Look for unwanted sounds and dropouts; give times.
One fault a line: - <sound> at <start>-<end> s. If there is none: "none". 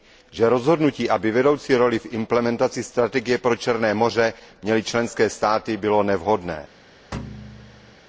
- thud at 7.1-8.0 s